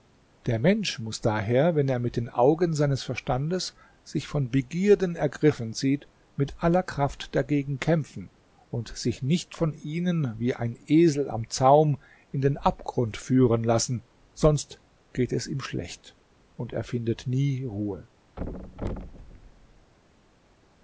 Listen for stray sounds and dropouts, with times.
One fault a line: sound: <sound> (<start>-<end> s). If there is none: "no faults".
sound: thud (18.4-19.9 s)